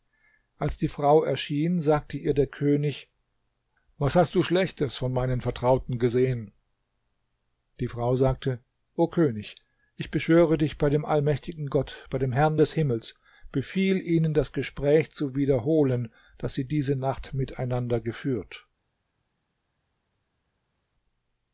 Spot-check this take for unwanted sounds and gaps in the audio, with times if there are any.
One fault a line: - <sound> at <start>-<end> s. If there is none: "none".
none